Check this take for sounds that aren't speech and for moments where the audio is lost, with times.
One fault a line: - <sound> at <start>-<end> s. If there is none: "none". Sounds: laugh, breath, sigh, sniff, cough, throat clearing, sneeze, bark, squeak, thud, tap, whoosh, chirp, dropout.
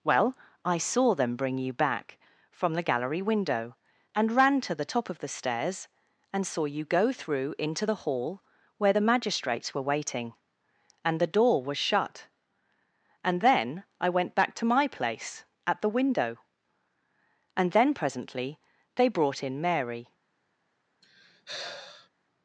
- sigh at 21.0-22.1 s